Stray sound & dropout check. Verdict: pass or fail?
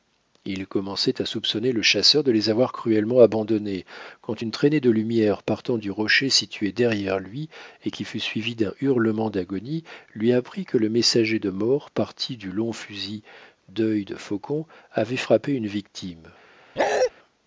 fail